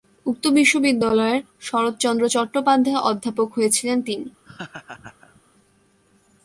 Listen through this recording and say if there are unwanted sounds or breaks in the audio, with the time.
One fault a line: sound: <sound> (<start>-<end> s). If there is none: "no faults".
sound: laugh (4.4-5.4 s)